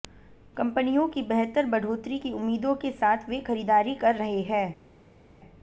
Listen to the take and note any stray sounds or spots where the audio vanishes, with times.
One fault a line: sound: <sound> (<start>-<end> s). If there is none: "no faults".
no faults